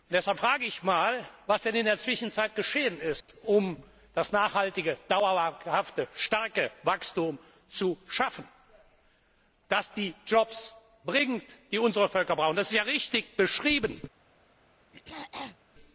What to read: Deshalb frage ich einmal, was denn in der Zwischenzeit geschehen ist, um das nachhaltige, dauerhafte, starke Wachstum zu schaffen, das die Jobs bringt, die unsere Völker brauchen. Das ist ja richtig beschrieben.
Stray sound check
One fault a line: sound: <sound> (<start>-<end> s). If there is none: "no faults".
sound: dropout (3.2-3.3 s)
sound: throat clearing (14.9-15.6 s)